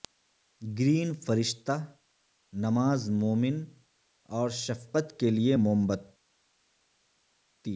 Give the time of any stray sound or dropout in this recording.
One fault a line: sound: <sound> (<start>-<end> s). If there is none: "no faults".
no faults